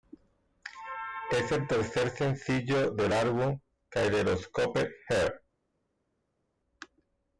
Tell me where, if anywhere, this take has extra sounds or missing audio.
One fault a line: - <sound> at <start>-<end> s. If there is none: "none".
none